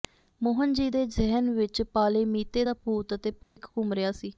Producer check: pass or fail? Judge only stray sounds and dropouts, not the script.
fail